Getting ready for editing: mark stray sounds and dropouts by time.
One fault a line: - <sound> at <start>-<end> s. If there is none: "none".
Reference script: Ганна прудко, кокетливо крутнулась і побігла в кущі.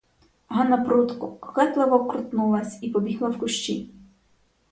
none